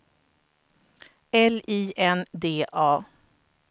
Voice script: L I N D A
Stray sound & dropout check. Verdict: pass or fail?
pass